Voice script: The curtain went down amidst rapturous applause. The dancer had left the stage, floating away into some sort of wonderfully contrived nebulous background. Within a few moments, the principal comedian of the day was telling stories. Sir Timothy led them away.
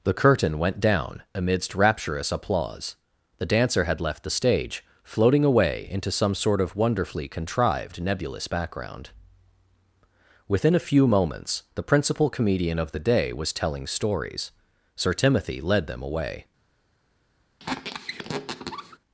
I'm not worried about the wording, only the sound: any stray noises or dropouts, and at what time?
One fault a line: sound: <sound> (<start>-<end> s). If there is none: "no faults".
sound: squeak (17.6-19.0 s)